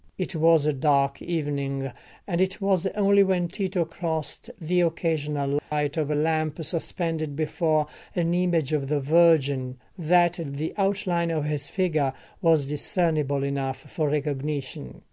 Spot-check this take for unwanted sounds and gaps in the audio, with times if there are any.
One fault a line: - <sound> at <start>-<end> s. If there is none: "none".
- dropout at 5.6-5.7 s